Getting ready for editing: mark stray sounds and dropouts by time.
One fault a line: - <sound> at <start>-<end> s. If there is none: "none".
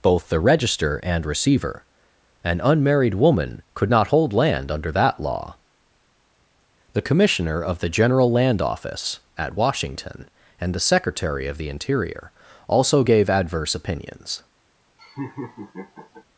- laugh at 15.0-16.2 s